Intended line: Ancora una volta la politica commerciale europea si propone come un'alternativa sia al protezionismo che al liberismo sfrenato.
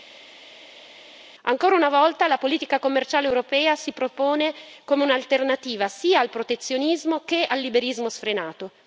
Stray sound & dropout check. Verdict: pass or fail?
pass